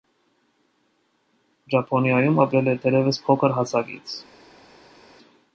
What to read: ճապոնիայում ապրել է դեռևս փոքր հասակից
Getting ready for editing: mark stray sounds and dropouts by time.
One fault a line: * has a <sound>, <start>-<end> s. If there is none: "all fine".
all fine